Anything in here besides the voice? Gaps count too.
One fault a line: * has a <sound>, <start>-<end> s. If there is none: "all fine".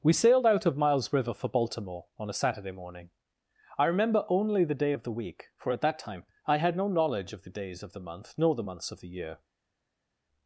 all fine